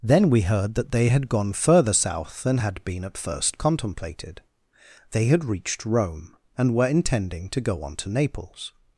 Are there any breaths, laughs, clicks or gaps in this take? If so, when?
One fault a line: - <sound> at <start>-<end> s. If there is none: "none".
none